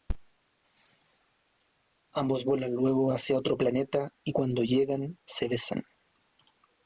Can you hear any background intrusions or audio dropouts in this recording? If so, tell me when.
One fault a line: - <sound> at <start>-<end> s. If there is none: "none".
none